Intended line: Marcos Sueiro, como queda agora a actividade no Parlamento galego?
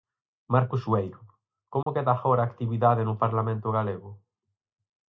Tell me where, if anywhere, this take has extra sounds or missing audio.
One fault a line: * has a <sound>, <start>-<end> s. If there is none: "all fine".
* has a dropout, 1.8-1.9 s